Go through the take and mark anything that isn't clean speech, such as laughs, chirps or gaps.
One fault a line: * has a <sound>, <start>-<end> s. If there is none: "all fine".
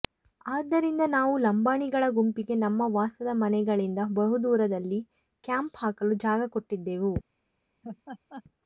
* has a laugh, 7.8-8.4 s